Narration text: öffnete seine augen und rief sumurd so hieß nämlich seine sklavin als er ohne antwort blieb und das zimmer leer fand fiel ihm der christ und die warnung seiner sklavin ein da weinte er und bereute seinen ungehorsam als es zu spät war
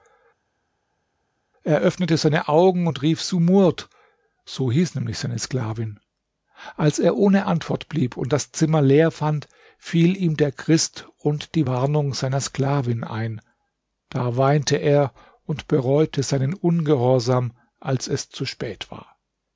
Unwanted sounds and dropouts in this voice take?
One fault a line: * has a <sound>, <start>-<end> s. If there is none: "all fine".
all fine